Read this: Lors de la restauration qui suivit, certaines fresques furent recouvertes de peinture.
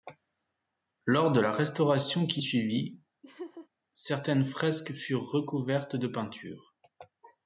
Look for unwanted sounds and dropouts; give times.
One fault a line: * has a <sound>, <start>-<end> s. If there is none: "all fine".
* has a laugh, 3.2-3.7 s